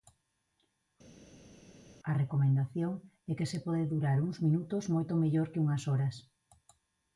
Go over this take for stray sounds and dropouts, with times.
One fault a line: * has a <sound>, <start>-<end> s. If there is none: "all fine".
all fine